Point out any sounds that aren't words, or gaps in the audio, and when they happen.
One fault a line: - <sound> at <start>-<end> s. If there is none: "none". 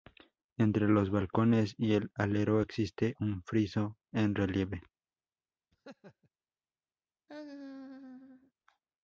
- laugh at 5.7-6.3 s
- laugh at 7.3-8.5 s